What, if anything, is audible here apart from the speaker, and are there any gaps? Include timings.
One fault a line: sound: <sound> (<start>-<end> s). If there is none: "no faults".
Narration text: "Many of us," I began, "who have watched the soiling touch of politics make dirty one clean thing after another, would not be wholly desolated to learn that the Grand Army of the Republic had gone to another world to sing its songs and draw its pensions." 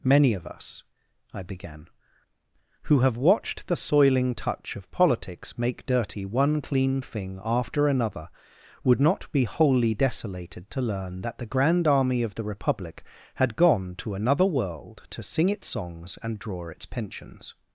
no faults